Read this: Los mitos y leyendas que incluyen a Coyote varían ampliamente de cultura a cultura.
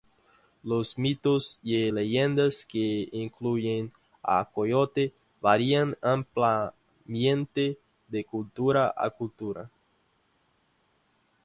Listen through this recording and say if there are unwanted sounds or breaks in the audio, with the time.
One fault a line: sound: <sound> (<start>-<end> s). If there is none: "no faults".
no faults